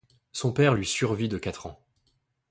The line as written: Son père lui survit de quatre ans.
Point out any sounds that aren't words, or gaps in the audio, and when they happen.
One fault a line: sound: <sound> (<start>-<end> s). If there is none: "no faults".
no faults